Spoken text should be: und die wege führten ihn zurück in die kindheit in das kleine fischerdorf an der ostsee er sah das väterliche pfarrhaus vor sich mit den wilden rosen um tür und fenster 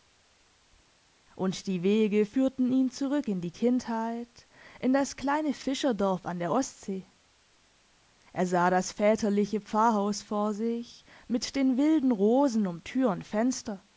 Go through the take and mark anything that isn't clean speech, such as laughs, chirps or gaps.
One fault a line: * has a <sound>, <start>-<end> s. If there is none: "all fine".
all fine